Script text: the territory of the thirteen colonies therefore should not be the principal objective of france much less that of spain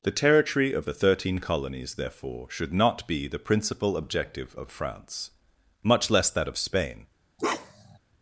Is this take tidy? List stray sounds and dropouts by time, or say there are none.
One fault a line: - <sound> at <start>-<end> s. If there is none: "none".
- bark at 7.4-8.0 s